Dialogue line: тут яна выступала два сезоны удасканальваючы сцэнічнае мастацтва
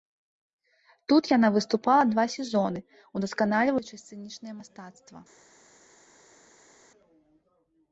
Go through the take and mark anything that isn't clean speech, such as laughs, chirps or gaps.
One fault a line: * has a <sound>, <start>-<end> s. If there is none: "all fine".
all fine